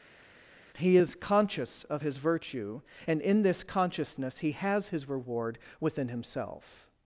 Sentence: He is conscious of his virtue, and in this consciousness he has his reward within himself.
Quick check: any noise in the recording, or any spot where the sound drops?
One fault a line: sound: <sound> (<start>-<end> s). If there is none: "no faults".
no faults